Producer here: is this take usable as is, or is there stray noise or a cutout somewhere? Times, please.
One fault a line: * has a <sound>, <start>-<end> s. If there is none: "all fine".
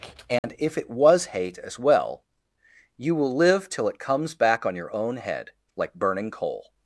* has a dropout, 0.4-0.4 s